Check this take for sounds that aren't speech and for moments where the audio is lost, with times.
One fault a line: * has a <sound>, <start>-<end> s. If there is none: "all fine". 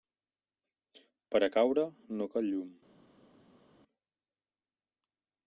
all fine